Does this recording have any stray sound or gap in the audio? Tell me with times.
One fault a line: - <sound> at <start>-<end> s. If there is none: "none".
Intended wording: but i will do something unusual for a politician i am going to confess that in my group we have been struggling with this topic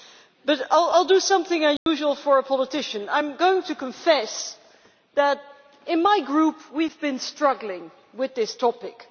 - dropout at 1.8-1.9 s